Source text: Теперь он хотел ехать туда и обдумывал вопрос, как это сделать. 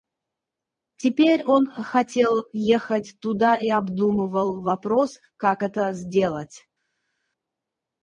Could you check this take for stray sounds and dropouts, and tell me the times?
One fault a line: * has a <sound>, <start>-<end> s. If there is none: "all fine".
all fine